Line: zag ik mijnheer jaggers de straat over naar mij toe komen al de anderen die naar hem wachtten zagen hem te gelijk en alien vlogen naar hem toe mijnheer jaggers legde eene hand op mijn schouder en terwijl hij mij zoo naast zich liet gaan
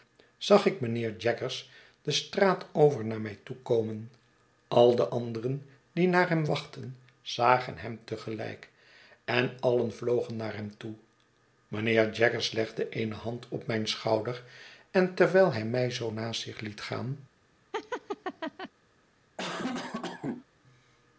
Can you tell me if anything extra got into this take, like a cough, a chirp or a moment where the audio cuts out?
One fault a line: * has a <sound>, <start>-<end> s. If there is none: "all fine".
* has a laugh, 17.7-18.7 s
* has a cough, 19.4-20.5 s